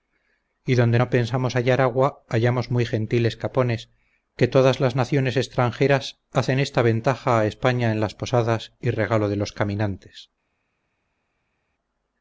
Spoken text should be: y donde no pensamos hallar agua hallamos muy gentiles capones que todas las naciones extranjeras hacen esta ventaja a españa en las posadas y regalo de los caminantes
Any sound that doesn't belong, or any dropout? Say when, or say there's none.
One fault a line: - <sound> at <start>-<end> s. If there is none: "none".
none